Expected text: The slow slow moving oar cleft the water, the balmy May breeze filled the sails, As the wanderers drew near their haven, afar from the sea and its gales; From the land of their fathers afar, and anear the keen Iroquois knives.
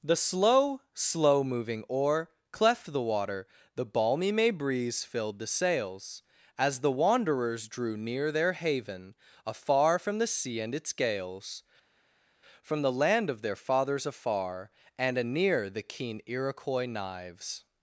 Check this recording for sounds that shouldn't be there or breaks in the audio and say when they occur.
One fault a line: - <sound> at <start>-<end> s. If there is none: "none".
none